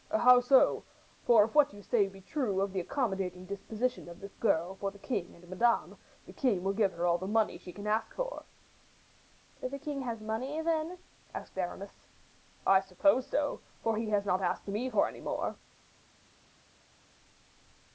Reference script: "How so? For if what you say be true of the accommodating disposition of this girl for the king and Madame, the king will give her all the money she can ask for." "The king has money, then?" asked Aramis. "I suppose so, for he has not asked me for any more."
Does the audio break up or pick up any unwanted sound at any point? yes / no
no